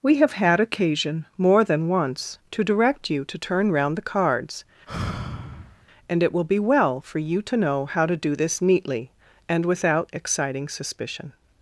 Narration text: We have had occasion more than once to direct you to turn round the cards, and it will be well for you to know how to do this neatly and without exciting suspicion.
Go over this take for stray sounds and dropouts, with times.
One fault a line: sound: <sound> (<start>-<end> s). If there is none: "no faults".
sound: sigh (4.9-5.9 s)